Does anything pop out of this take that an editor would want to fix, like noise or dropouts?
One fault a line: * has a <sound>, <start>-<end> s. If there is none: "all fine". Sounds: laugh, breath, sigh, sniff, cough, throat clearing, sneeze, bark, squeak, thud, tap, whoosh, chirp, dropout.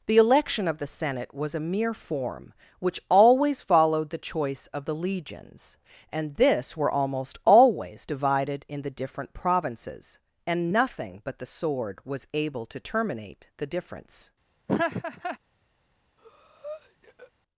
* has a laugh, 14.7-15.4 s
* has a breath, 16.2-17.3 s